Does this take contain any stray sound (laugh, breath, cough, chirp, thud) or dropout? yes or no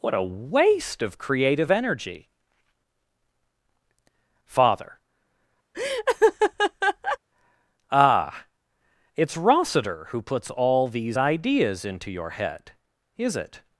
yes